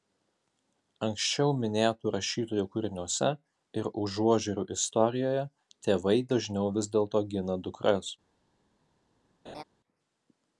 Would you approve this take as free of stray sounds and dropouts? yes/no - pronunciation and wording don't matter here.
no